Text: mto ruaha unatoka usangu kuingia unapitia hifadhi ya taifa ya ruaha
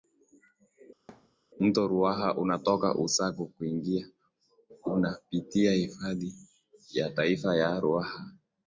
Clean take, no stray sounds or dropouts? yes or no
no